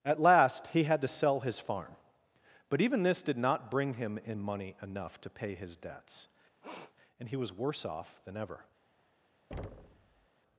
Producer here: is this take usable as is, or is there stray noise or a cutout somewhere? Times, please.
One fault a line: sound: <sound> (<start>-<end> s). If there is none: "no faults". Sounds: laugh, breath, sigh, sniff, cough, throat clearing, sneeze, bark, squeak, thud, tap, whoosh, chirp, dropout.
sound: sniff (6.6-6.9 s)
sound: thud (9.5-10.3 s)